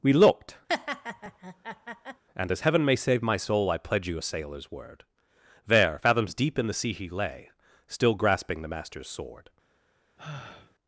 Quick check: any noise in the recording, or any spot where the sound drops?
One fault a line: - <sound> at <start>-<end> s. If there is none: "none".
- laugh at 0.7-2.2 s
- sigh at 10.2-10.7 s